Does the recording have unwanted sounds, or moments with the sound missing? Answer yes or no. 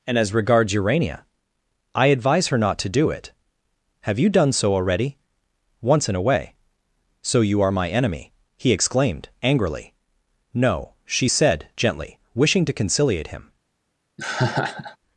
yes